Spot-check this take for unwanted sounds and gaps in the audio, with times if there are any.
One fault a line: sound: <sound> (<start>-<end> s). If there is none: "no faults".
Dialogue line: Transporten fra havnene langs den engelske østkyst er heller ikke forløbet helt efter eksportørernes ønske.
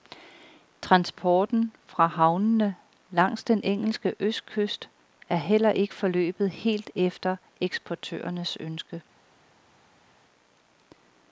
no faults